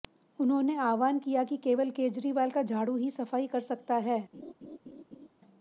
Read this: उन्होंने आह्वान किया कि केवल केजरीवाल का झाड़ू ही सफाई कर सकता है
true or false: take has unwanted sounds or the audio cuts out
true